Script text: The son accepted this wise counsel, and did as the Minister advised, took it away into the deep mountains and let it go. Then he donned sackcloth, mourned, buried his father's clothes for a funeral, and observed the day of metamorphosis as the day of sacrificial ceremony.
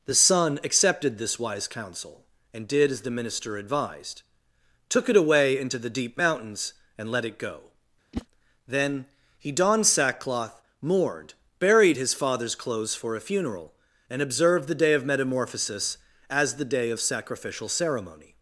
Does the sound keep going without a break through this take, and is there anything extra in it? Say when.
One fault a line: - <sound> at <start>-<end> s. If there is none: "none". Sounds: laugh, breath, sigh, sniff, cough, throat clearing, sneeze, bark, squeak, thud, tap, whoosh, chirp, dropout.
- whoosh at 8.1-8.3 s